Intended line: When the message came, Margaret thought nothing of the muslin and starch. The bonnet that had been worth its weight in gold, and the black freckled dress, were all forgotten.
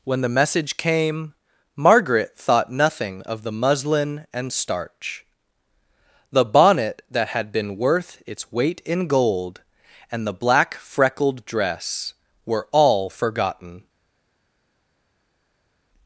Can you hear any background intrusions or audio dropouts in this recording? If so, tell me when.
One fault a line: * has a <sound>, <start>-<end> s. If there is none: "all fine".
all fine